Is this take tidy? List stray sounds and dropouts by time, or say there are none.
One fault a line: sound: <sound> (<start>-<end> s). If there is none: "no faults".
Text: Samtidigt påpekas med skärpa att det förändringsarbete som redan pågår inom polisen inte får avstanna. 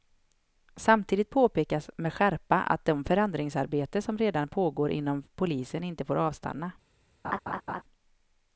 sound: laugh (7.2-7.8 s)